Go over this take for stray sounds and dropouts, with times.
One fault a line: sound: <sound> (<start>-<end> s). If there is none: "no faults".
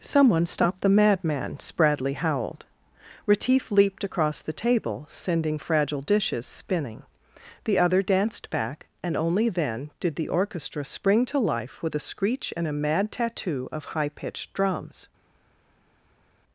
no faults